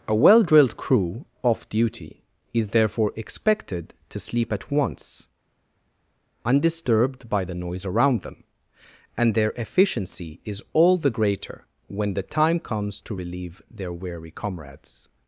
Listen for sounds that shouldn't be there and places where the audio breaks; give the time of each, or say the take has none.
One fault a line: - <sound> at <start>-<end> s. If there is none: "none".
none